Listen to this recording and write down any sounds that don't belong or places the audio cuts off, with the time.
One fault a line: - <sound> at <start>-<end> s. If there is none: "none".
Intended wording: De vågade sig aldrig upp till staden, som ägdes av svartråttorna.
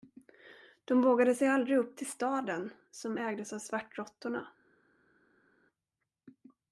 none